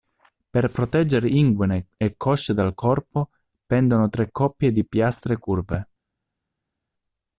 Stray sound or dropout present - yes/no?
no